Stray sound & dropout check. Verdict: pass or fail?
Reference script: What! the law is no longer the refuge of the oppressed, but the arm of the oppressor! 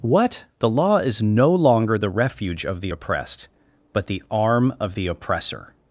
pass